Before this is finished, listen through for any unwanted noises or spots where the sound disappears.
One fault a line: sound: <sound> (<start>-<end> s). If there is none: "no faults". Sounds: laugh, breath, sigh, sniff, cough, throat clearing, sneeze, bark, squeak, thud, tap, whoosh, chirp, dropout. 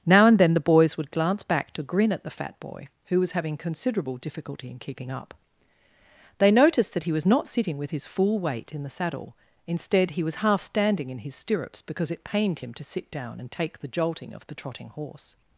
no faults